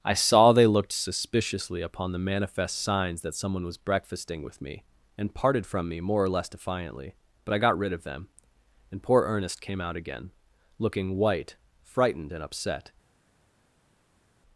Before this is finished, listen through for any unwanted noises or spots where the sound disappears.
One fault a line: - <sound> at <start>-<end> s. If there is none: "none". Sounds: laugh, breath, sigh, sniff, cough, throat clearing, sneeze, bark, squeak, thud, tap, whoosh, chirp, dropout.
none